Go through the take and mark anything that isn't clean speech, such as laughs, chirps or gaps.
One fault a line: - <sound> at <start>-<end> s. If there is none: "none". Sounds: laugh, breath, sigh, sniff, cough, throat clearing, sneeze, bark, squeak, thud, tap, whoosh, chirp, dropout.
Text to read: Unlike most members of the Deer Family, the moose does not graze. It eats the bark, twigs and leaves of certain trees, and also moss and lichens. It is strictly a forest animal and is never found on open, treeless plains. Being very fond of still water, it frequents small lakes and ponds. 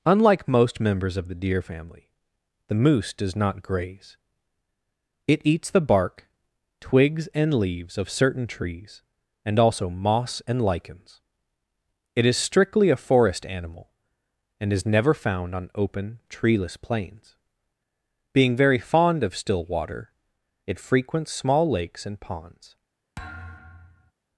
- thud at 23.2-24.1 s